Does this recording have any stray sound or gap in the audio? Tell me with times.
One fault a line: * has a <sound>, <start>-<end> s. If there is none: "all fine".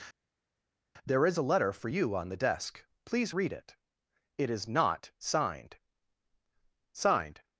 all fine